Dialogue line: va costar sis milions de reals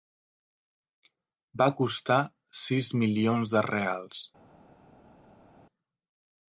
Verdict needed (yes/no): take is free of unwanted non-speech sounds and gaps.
yes